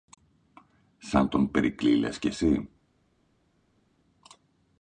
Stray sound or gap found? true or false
false